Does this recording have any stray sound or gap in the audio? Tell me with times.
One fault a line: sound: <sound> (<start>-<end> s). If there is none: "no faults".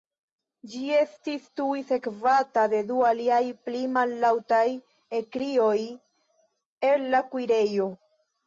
no faults